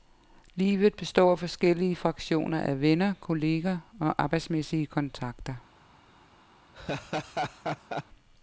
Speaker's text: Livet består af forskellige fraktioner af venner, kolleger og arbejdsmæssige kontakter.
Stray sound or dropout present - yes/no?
yes